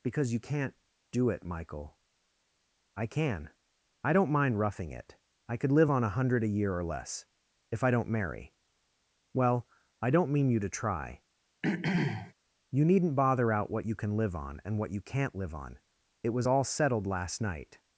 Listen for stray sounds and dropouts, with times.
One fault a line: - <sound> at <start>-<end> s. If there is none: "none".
- throat clearing at 11.6-12.3 s